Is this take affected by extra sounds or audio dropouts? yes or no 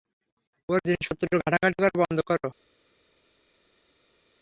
no